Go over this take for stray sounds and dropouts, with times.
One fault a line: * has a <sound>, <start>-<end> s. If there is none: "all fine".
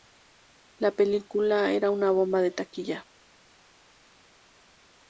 all fine